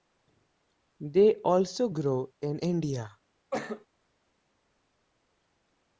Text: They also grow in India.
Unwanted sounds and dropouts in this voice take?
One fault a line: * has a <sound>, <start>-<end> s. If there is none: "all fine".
* has a cough, 3.5-3.9 s